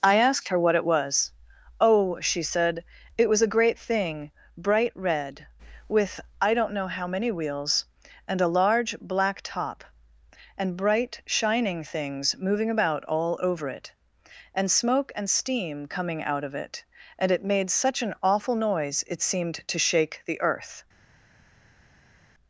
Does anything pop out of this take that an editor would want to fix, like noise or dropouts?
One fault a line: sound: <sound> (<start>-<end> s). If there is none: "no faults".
no faults